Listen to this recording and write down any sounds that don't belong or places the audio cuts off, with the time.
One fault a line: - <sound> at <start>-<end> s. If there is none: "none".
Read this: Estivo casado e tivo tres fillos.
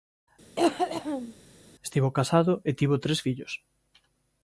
- cough at 0.6-1.3 s